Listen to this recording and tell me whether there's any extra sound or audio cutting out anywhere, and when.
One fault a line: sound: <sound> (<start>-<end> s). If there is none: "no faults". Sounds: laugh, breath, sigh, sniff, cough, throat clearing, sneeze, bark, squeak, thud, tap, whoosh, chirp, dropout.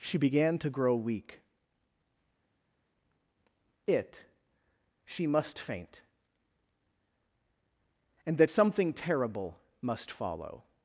no faults